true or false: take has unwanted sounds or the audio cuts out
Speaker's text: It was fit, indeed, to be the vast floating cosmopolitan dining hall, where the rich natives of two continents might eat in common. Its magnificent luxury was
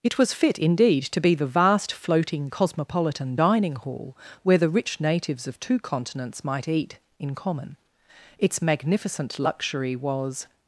false